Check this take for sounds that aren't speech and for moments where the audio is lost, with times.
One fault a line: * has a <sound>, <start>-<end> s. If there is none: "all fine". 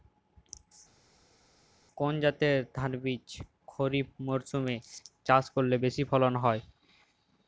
all fine